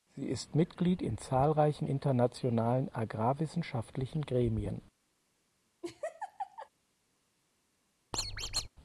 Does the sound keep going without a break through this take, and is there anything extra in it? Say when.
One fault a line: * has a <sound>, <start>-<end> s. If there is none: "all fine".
* has a laugh, 5.8-6.7 s
* has a squeak, 8.1-8.7 s